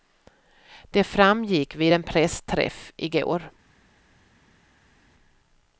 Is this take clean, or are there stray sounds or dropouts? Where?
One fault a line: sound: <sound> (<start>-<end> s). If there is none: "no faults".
no faults